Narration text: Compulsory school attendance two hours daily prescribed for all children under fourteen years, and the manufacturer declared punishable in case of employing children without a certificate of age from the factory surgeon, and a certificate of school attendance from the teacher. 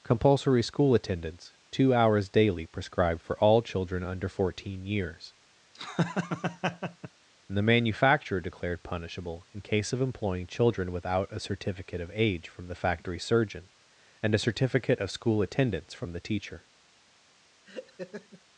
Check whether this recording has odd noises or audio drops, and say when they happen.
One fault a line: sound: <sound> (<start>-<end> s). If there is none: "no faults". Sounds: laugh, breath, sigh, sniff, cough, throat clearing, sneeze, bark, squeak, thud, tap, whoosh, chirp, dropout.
sound: laugh (5.7-7.1 s)
sound: laugh (17.7-18.4 s)